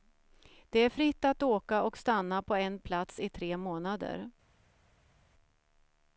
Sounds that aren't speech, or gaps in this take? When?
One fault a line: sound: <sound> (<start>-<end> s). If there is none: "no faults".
no faults